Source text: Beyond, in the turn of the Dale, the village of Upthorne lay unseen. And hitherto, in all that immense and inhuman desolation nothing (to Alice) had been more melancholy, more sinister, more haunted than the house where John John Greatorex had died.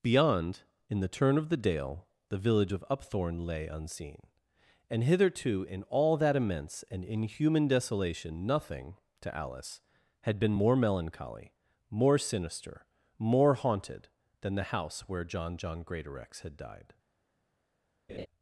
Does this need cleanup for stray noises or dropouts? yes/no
yes